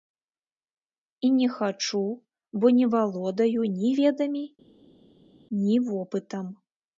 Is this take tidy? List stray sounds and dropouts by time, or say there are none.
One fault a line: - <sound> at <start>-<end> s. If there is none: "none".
none